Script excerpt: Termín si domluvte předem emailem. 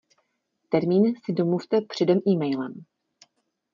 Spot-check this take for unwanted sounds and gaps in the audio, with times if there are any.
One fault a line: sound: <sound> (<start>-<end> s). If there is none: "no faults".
no faults